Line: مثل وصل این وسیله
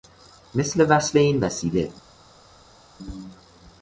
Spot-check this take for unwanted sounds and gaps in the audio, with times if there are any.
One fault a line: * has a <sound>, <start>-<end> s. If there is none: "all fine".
all fine